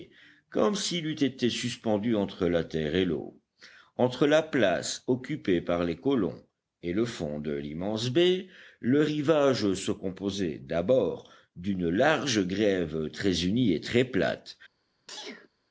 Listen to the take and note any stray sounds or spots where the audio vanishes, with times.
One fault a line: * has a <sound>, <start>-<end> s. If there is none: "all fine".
* has a sneeze, 15.1-15.5 s